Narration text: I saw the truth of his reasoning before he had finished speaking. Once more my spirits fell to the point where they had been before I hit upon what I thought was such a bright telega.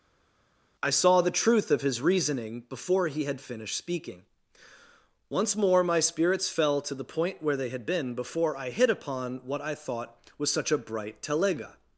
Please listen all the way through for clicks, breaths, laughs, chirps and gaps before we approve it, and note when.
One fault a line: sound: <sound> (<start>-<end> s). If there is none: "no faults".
no faults